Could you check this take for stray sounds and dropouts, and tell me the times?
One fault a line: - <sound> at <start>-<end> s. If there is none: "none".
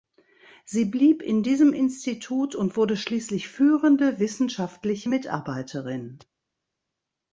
none